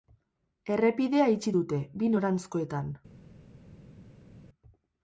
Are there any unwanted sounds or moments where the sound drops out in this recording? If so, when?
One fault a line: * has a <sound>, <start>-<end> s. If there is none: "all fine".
all fine